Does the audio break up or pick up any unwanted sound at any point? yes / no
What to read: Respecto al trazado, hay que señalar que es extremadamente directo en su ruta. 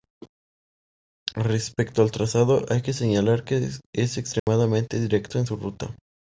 yes